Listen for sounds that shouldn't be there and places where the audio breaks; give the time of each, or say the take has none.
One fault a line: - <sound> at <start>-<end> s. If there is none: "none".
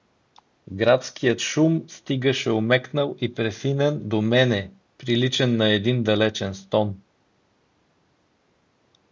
none